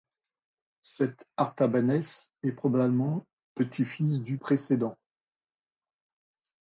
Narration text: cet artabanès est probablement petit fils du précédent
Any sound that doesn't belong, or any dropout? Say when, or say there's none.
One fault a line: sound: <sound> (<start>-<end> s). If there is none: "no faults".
no faults